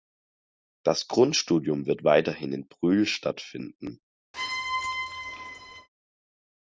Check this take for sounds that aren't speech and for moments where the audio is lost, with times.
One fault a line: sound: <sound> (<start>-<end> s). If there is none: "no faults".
sound: squeak (4.3-5.9 s)